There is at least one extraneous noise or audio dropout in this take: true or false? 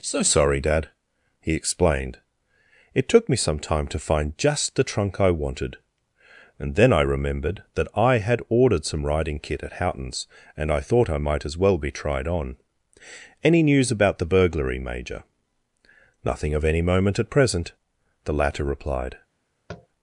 true